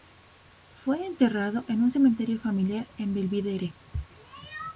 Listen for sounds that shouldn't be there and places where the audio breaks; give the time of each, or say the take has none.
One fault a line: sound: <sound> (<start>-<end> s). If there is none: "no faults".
no faults